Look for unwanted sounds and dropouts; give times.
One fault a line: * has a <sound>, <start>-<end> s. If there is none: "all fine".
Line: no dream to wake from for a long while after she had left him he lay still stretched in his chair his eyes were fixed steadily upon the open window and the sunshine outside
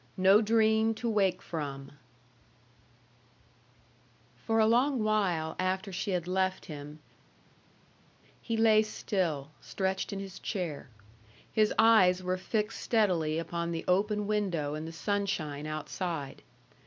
all fine